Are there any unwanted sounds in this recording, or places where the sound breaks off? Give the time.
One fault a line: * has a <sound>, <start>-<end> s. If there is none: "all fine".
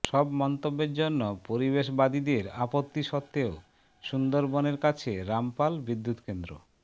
all fine